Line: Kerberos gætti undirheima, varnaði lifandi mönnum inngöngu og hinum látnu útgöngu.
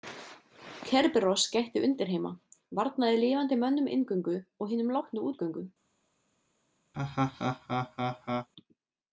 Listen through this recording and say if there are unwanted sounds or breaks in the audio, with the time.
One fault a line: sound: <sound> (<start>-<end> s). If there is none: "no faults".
sound: laugh (6.9-8.5 s)